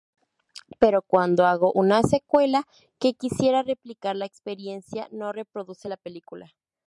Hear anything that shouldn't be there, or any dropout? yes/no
no